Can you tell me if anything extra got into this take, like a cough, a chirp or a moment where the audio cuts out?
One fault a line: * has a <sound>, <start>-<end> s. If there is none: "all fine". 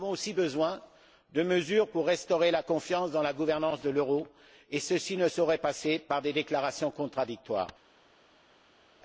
all fine